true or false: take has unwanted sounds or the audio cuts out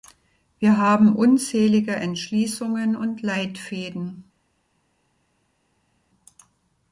false